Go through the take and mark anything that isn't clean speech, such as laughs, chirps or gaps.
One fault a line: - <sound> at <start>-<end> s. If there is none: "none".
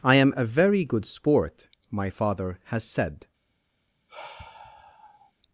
- sigh at 4.1-5.3 s